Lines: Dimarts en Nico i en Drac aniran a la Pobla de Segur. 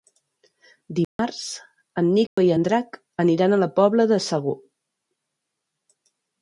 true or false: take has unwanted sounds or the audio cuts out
true